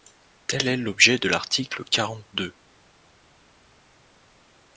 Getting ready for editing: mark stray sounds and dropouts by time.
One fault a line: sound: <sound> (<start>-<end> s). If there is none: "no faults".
no faults